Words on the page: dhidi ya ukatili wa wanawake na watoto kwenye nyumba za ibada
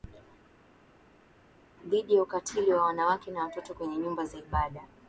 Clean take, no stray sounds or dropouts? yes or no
yes